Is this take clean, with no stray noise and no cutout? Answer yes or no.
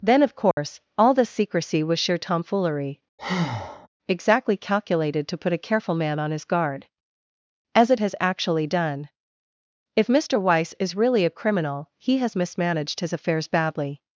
no